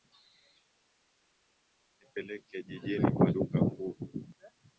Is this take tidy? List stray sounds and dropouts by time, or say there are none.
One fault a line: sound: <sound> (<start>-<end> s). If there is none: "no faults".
no faults